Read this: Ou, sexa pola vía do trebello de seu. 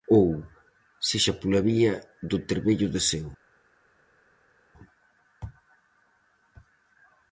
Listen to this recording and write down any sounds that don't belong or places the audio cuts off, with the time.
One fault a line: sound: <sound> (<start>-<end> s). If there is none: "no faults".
no faults